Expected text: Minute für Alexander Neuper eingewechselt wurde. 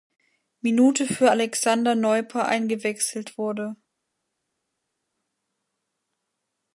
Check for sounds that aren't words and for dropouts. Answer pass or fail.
pass